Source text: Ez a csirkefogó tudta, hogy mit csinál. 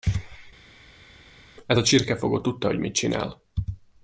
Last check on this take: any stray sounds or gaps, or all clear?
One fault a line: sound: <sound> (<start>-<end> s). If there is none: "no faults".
no faults